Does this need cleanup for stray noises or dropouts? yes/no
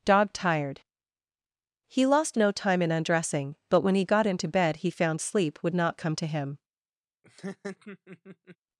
yes